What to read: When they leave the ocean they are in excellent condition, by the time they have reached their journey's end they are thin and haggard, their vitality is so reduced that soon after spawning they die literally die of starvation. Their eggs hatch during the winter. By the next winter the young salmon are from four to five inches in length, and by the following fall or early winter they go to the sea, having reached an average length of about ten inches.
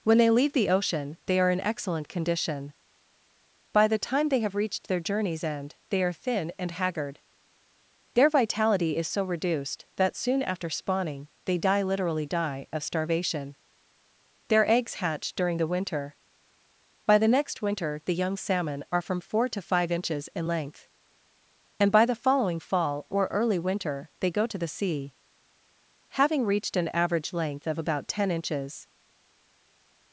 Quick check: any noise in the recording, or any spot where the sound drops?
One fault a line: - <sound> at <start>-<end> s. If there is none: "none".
none